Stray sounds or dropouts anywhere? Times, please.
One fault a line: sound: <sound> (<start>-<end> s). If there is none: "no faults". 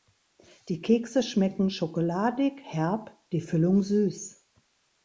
no faults